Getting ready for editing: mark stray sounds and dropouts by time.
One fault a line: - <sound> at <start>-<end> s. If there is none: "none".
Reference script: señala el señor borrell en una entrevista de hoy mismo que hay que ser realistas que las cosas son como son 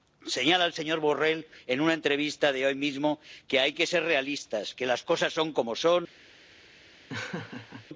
- laugh at 7.1-7.9 s